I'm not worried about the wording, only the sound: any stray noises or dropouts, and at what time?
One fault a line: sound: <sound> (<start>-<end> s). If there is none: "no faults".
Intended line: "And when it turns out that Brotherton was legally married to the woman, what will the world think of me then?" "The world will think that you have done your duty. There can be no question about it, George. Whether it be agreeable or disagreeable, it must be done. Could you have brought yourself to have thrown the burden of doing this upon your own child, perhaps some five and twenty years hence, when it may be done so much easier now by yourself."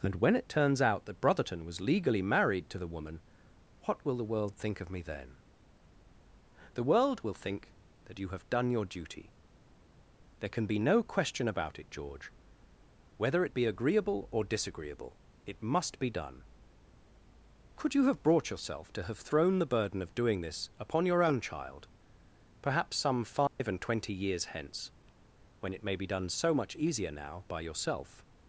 sound: dropout (23.5-23.6 s)